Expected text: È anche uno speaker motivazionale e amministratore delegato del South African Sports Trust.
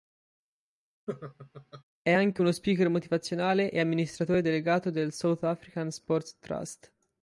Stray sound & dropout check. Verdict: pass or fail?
fail